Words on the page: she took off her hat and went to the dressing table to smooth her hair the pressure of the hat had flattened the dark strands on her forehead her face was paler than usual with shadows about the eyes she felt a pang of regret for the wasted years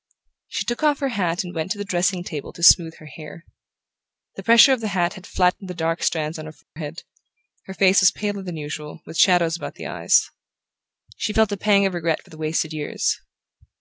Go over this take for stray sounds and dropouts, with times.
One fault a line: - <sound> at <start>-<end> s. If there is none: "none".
- dropout at 6.6-6.8 s